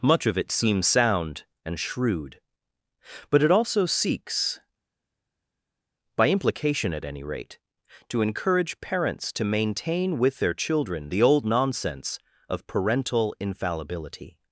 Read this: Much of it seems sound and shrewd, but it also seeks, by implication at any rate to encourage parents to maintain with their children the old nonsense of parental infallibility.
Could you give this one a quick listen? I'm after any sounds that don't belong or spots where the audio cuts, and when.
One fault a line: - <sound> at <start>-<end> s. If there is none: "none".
none